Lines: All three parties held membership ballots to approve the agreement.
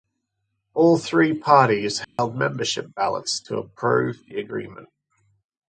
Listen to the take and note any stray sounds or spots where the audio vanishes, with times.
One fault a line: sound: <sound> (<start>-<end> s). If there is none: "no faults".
sound: dropout (2.0-2.2 s)